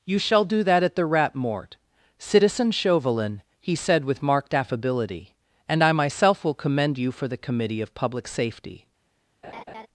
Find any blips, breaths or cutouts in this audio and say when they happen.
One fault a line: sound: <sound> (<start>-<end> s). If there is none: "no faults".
sound: laugh (9.4-9.9 s)